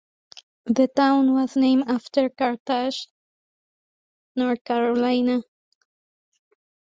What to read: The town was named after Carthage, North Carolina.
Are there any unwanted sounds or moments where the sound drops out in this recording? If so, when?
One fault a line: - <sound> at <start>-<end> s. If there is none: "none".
none